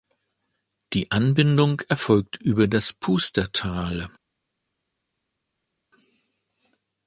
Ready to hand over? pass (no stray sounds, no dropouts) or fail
pass